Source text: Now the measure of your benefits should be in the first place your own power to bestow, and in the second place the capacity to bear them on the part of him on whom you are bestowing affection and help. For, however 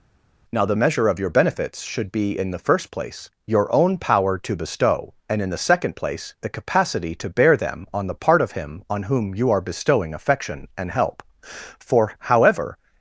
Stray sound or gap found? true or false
false